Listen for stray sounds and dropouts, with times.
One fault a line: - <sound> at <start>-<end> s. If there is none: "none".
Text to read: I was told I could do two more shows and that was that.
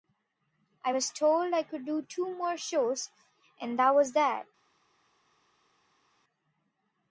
none